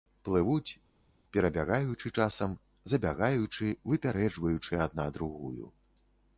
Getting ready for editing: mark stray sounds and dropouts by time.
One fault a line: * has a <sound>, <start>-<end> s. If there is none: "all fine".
all fine